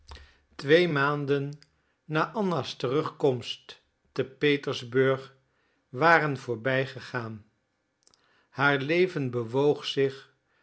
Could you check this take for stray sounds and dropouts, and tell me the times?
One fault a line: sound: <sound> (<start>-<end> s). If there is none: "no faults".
no faults